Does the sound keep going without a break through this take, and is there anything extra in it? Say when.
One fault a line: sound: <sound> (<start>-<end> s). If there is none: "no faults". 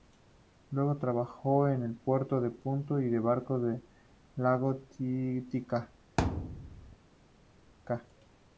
sound: thud (6.2-7.0 s)